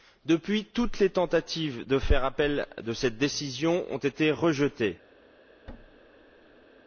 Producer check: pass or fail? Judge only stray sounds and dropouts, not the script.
fail